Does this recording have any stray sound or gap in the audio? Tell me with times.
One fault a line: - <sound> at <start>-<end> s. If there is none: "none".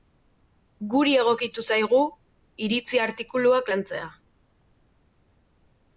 none